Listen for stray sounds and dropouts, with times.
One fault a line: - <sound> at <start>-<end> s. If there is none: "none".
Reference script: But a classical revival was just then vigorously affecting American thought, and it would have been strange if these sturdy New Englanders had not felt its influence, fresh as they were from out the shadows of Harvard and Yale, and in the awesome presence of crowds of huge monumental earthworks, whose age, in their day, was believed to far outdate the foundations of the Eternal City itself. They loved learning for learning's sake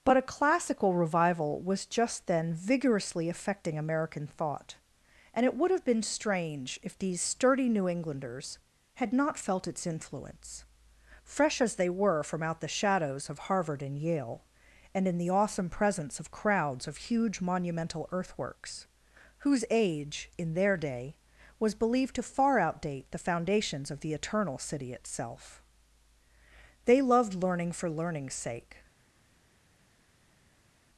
none